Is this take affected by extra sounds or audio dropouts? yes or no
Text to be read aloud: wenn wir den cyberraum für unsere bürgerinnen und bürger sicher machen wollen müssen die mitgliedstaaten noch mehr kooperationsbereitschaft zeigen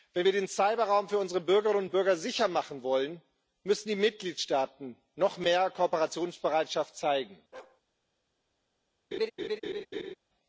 yes